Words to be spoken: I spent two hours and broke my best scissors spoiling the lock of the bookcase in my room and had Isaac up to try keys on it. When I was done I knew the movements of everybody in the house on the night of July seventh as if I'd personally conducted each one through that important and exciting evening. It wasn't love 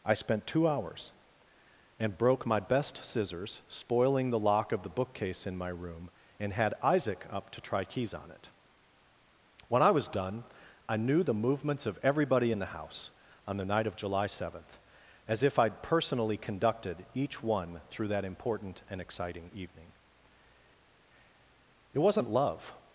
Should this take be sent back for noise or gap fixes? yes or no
no